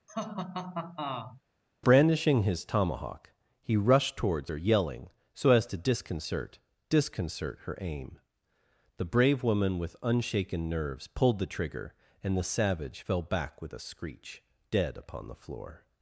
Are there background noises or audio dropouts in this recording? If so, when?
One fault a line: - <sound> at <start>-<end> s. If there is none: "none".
- laugh at 0.1-1.4 s